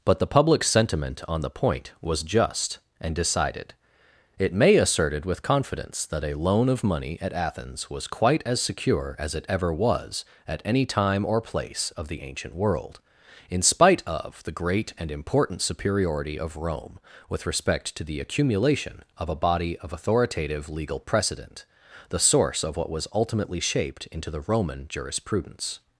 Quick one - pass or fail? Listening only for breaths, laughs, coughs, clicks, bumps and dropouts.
pass